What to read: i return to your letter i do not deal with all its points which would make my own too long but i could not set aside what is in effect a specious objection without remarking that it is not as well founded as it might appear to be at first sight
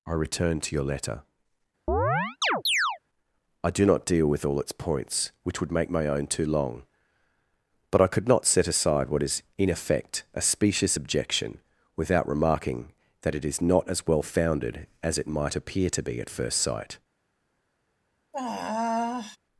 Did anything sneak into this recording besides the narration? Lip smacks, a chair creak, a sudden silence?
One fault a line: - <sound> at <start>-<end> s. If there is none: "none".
- chirp at 1.9-3.0 s
- sigh at 18.3-19.4 s